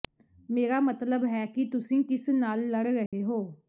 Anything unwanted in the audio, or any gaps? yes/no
yes